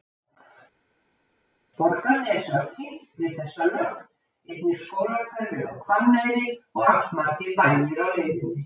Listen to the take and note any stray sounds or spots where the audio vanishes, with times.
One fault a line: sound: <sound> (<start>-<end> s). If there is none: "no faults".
no faults